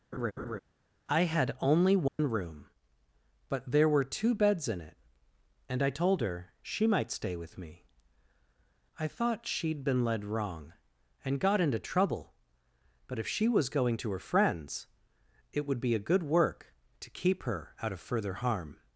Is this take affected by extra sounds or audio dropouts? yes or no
yes